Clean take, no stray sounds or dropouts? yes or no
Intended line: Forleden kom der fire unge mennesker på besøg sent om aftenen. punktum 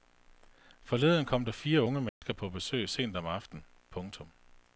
no